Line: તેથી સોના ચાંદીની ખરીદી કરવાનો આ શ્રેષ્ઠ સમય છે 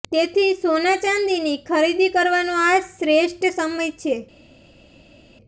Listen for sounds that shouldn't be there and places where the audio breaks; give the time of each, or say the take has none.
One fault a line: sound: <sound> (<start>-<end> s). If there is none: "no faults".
no faults